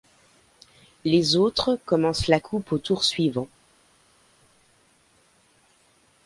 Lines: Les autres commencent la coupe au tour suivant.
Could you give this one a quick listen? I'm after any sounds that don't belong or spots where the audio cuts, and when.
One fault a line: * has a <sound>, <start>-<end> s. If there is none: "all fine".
all fine